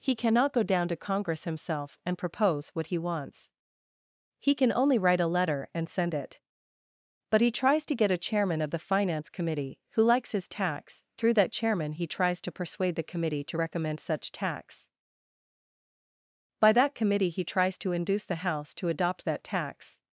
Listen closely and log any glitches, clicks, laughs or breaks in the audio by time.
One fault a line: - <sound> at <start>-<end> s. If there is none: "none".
none